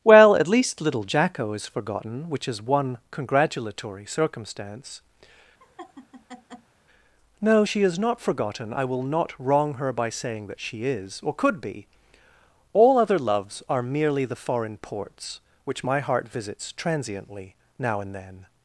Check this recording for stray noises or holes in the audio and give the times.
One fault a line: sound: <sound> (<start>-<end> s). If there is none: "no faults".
sound: laugh (5.6-6.7 s)